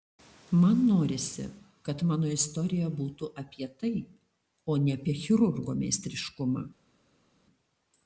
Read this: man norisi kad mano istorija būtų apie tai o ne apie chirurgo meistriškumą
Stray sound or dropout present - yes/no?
no